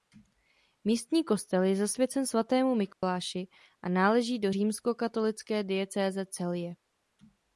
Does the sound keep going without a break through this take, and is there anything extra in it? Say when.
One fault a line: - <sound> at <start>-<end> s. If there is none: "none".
- dropout at 2.9-3.0 s